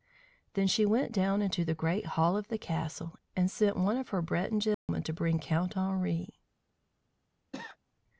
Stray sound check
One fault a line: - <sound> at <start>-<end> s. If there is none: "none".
- dropout at 4.7-4.9 s
- cough at 7.5-7.8 s